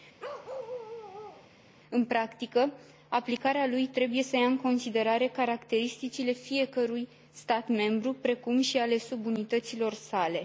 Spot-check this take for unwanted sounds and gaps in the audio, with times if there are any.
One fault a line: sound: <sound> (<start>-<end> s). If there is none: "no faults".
sound: bark (0.2-1.5 s)